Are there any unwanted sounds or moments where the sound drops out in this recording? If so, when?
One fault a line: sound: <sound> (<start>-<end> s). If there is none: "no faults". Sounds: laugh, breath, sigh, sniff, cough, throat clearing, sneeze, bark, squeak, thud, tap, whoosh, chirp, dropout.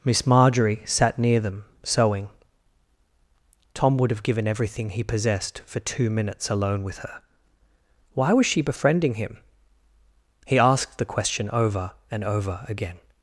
no faults